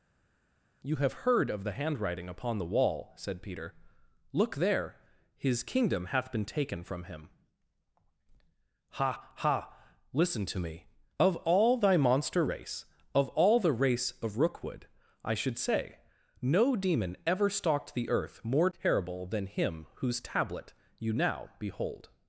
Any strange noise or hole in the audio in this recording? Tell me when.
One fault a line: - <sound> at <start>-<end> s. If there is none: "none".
none